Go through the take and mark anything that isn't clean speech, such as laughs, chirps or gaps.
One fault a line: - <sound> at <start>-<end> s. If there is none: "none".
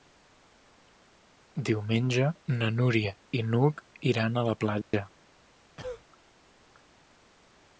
- dropout at 4.8-4.9 s
- cough at 5.8-6.0 s